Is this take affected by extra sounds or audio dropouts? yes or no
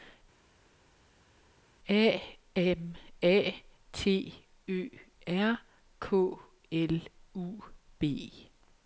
no